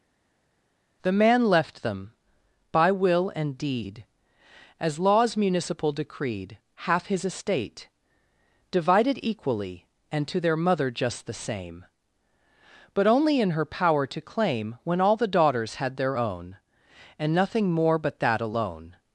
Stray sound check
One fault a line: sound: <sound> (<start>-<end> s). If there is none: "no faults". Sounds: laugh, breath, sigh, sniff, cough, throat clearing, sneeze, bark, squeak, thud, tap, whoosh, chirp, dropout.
no faults